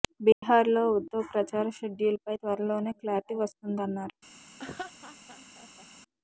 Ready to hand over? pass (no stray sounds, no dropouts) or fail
fail